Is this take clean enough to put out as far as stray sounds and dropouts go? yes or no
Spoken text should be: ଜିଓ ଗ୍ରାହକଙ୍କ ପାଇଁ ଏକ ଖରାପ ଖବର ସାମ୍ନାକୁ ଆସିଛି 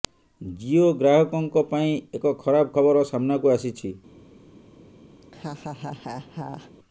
no